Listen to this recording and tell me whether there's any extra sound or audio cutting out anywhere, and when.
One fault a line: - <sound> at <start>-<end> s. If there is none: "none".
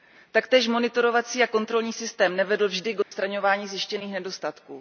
- dropout at 3.0-3.1 s